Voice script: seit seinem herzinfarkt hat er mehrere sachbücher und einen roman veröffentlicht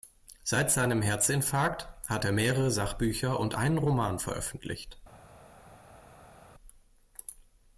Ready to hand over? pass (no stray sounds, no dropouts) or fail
pass